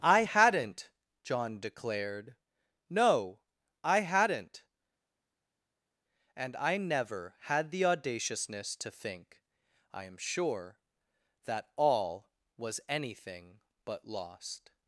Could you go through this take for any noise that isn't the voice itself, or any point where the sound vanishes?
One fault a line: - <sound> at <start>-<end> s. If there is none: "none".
none